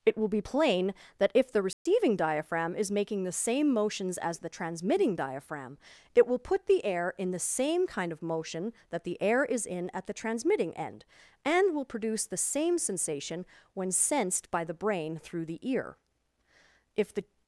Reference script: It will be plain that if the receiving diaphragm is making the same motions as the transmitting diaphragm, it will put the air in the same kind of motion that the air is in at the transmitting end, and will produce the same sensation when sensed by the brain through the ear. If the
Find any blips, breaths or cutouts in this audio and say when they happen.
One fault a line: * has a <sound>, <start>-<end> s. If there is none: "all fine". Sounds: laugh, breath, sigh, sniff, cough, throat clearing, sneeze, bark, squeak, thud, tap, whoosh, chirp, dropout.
* has a dropout, 1.7-1.9 s